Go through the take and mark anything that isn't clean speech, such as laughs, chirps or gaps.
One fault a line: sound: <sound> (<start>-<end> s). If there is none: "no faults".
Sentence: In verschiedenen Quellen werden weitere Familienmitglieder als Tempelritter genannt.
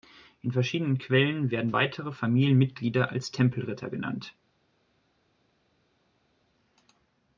no faults